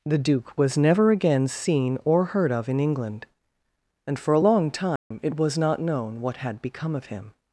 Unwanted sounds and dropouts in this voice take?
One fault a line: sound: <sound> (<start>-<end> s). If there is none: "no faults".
sound: dropout (5.0-5.1 s)